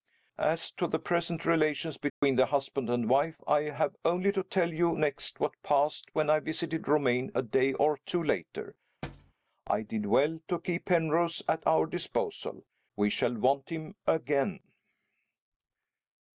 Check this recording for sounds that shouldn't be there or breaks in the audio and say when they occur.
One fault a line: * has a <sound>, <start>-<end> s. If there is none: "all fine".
* has a dropout, 2.1-2.2 s
* has a thud, 9.0-9.3 s